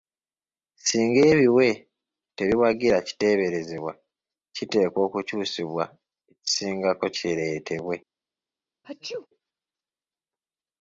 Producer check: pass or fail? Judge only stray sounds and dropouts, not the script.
fail